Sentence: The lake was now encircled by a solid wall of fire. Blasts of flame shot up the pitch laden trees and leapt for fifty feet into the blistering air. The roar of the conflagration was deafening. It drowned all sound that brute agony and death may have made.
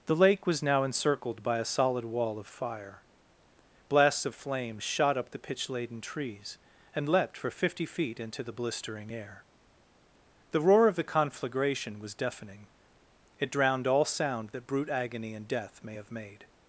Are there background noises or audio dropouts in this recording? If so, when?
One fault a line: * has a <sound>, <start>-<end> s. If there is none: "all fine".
all fine